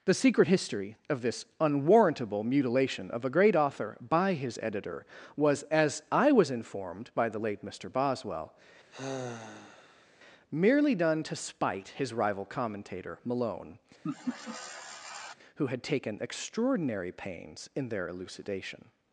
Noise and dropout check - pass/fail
fail